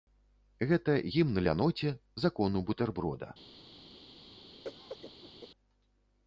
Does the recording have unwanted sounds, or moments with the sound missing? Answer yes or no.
yes